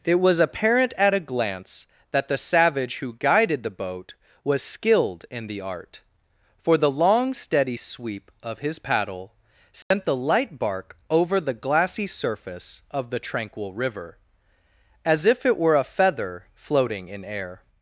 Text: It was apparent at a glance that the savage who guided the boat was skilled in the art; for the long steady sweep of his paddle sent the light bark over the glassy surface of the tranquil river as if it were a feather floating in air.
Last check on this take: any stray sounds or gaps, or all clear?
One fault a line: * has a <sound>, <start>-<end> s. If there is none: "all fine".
* has a dropout, 9.8-9.9 s